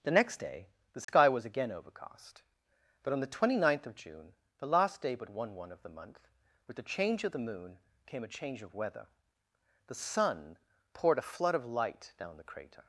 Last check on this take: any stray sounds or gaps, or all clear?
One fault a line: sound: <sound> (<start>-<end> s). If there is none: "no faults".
sound: dropout (1.0-1.1 s)